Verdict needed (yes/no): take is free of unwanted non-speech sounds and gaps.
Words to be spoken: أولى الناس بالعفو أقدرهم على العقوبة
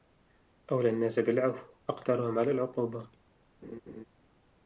no